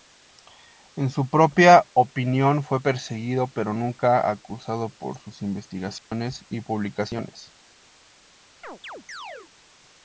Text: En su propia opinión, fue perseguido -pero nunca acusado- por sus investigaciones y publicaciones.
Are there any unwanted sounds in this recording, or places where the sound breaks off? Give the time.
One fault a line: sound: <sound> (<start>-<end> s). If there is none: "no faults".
sound: dropout (6.0-6.1 s)
sound: chirp (8.6-9.5 s)